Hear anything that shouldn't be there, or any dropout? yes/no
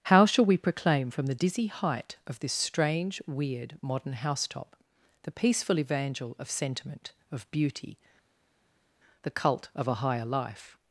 no